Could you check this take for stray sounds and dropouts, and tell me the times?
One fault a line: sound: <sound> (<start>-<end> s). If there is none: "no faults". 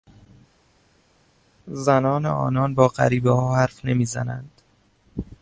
no faults